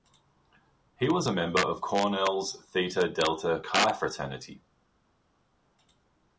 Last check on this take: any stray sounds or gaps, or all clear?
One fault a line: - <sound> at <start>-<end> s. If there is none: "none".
none